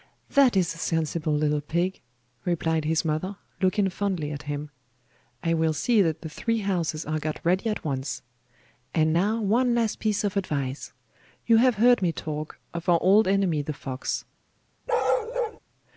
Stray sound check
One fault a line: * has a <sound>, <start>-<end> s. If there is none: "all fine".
* has a bark, 14.9-15.6 s